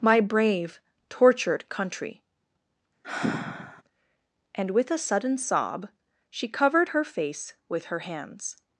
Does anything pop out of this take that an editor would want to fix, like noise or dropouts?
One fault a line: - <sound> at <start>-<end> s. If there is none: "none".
- sigh at 3.0-3.8 s